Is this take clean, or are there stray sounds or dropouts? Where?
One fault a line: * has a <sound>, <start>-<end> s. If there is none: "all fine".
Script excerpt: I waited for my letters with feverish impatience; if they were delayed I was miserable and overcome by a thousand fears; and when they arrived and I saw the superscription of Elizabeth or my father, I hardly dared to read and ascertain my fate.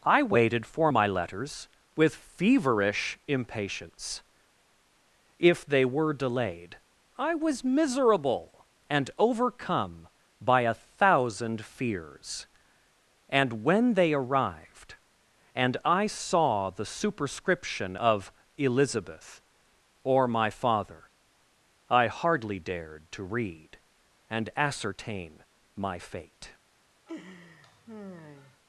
* has a laugh, 27.1-28.6 s